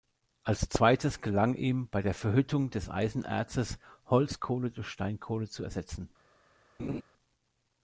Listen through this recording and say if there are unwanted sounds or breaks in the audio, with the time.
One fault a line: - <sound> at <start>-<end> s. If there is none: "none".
- laugh at 6.8-7.0 s